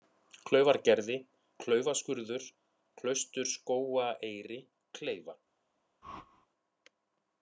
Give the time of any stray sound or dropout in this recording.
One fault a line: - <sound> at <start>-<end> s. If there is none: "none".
- whoosh at 6.0-6.5 s